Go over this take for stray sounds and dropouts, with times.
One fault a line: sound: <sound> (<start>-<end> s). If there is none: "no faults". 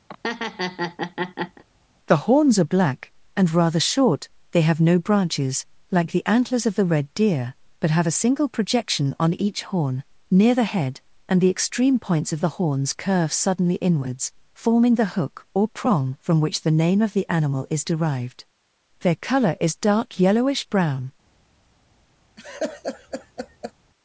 sound: laugh (0.1-1.6 s)
sound: laugh (22.4-23.7 s)